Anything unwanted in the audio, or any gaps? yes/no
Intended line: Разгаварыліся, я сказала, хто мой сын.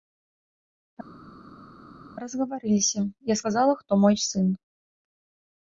no